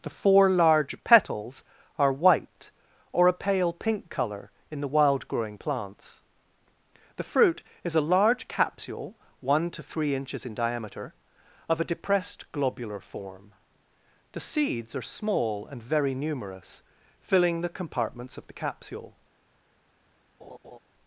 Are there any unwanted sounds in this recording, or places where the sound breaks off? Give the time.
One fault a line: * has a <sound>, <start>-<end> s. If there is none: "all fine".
* has a laugh, 20.4-20.8 s